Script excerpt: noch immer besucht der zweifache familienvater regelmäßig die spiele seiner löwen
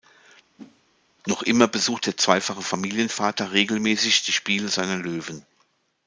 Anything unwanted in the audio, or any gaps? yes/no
yes